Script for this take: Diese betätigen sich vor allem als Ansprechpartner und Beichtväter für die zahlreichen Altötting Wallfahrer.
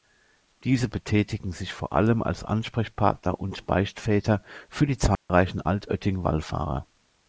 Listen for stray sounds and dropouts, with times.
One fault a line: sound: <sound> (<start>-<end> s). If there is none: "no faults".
sound: dropout (5.1-5.3 s)